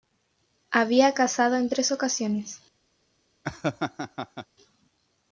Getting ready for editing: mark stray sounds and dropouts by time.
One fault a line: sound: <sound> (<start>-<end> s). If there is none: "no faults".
sound: laugh (3.4-4.5 s)